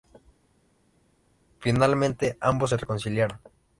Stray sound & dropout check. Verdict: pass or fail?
pass